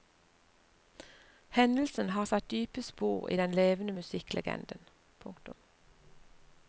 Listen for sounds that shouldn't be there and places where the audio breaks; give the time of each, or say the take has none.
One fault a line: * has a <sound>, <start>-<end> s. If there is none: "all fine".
all fine